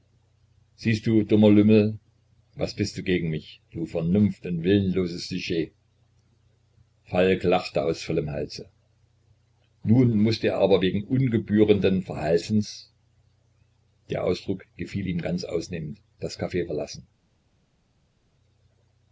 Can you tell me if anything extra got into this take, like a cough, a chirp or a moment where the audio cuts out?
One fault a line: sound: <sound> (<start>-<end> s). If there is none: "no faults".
no faults